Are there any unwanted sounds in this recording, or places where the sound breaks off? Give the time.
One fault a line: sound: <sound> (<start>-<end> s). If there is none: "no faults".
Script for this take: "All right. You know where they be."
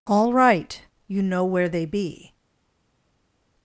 no faults